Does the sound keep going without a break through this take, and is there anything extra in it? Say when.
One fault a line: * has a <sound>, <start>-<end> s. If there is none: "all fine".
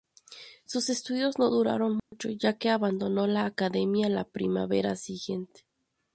* has a dropout, 2.0-2.1 s